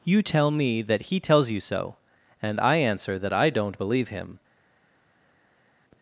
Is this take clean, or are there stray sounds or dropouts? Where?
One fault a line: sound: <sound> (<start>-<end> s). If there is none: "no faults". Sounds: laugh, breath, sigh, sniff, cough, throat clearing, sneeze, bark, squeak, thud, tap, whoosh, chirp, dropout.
no faults